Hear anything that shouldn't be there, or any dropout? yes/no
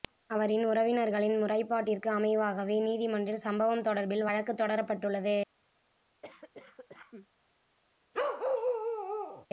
yes